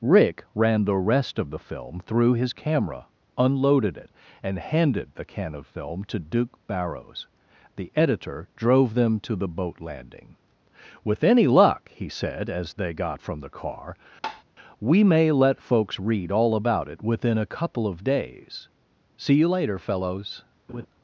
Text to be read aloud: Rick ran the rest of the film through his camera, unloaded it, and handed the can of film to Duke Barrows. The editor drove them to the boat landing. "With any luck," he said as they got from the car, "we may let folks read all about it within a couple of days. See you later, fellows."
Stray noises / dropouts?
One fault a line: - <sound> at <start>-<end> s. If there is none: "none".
- tap at 14.2-14.4 s
- laugh at 20.7-20.9 s